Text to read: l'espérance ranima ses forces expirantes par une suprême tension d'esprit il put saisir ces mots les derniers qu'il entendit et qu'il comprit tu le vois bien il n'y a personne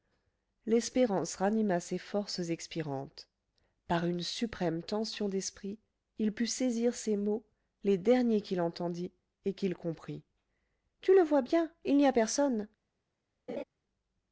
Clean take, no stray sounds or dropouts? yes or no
no